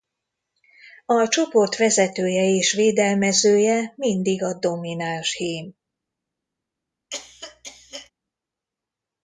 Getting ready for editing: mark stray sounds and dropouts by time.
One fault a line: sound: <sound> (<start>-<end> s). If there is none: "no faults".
sound: cough (7.1-8.1 s)